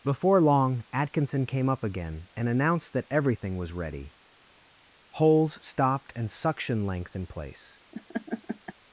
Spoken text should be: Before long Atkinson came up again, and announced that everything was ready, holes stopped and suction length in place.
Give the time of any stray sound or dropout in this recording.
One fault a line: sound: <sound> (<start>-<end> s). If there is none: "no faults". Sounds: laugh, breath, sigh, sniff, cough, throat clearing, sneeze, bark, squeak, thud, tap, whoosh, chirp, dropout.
sound: laugh (7.9-8.7 s)